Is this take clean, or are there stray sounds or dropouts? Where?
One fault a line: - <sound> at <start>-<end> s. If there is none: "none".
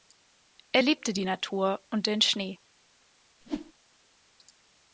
- whoosh at 3.4-3.7 s